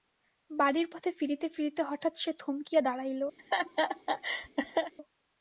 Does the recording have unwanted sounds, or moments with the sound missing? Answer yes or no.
yes